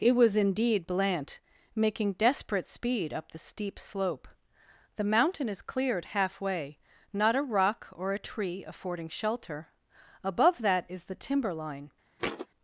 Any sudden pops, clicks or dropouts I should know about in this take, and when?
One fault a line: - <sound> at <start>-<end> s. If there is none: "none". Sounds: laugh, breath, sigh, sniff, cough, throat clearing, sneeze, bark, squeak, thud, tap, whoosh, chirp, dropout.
- thud at 12.2-12.5 s